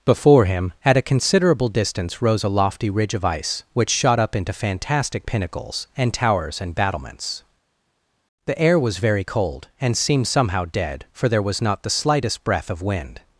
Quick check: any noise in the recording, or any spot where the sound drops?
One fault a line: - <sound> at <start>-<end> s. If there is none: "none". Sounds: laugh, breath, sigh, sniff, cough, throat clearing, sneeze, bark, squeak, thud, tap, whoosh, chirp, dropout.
none